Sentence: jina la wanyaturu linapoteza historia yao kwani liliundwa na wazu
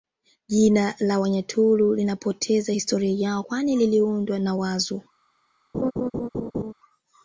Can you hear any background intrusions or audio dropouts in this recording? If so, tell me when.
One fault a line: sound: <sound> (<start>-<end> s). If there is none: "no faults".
sound: laugh (5.7-6.7 s)